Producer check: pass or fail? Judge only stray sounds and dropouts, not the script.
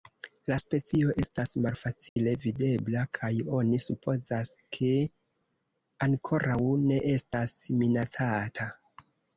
fail